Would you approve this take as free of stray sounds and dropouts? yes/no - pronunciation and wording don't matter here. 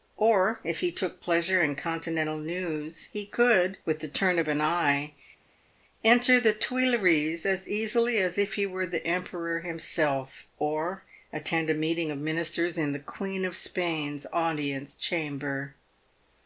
yes